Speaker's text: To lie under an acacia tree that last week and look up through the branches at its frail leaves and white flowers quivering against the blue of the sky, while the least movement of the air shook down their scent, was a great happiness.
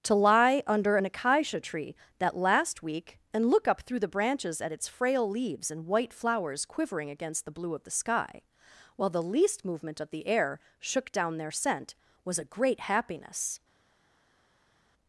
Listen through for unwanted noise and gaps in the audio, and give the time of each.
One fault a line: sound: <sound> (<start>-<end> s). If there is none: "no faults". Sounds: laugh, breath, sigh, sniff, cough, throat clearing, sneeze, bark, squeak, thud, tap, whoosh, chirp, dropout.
no faults